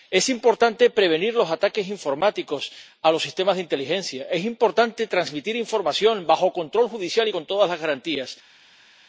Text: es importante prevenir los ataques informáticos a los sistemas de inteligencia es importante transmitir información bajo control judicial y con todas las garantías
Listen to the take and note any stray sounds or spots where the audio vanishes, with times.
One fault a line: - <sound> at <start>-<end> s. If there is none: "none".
none